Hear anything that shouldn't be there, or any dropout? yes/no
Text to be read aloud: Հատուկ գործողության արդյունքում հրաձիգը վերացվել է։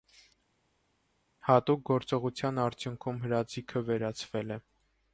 no